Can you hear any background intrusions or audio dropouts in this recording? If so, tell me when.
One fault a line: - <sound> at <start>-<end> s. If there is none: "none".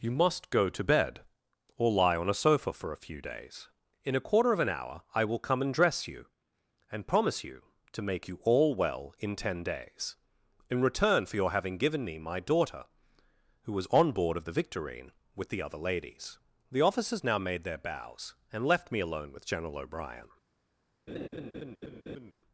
- laugh at 21.1-22.3 s